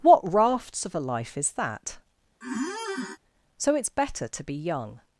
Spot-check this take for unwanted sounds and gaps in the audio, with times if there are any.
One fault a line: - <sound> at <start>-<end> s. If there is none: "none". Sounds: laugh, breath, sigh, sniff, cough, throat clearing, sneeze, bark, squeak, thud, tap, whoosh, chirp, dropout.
- squeak at 2.4-3.2 s